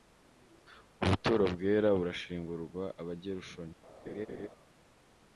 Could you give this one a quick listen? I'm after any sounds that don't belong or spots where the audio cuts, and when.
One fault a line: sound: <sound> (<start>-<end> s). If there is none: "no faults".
sound: laugh (4.1-4.5 s)